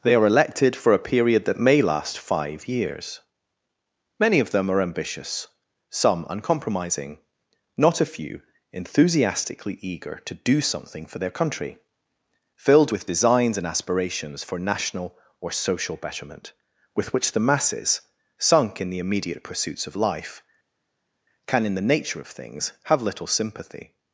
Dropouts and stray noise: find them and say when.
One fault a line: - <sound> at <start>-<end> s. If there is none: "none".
none